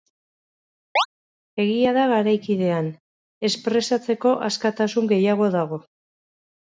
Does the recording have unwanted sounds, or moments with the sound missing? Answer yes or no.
yes